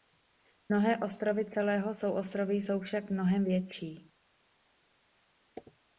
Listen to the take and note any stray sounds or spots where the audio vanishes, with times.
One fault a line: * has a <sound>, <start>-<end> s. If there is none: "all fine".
all fine